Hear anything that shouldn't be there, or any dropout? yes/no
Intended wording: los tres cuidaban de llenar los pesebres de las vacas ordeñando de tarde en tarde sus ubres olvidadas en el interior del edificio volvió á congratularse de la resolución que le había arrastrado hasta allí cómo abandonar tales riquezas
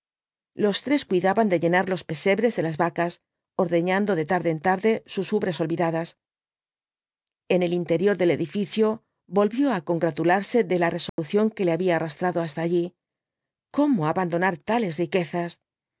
yes